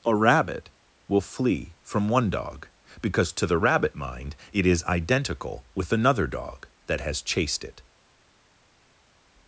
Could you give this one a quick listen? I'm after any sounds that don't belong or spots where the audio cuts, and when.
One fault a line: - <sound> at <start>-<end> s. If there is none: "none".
none